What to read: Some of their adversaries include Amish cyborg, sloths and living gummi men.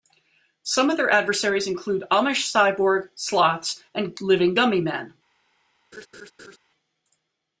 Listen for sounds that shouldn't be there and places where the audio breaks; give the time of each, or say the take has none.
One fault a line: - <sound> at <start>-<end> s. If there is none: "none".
- laugh at 5.9-6.6 s